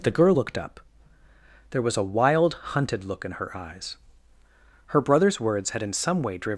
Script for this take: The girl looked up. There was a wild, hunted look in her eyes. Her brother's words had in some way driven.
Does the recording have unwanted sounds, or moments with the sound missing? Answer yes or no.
no